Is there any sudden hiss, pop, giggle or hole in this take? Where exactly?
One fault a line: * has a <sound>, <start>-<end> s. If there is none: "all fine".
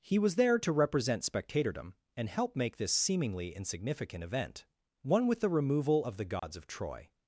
* has a dropout, 6.4-6.4 s